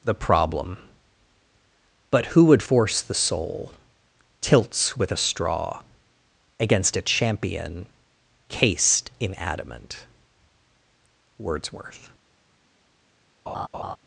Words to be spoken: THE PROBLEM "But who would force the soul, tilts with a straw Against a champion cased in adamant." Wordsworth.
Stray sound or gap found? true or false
true